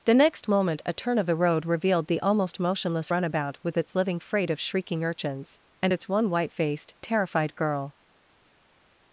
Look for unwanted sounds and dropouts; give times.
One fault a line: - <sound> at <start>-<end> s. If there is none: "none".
none